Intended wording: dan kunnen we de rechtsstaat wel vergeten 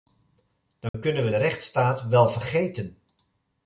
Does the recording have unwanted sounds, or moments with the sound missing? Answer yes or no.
yes